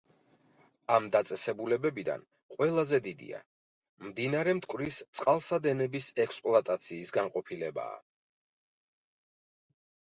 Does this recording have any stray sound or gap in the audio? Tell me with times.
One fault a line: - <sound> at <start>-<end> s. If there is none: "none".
none